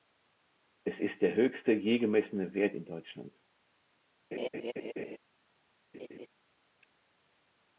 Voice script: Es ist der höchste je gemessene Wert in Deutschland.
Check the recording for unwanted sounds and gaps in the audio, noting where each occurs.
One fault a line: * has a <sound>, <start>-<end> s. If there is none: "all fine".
* has a laugh, 4.3-5.2 s
* has a laugh, 5.9-6.3 s